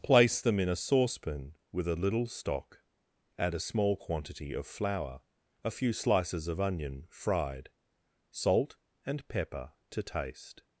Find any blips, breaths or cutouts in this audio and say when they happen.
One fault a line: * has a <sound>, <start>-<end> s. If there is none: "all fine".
all fine